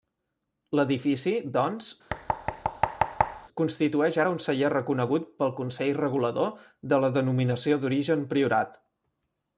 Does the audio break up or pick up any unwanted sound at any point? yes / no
yes